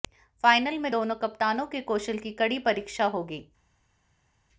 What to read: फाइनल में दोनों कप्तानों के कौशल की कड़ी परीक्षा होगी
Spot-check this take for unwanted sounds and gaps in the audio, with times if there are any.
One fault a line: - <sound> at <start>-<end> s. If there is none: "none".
none